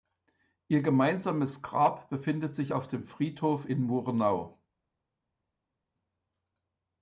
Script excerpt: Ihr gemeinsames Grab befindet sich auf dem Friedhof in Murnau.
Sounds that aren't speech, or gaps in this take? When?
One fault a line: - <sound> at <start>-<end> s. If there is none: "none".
none